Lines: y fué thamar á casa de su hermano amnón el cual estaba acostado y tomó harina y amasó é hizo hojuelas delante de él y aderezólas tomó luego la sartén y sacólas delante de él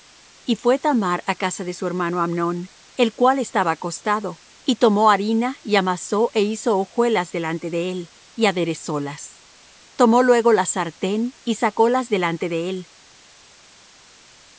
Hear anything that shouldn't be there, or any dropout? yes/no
no